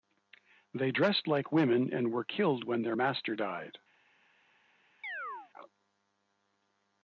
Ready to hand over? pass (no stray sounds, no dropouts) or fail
fail